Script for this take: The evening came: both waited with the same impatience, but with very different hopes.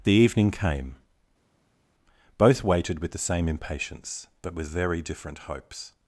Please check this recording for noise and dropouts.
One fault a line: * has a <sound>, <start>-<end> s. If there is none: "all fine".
all fine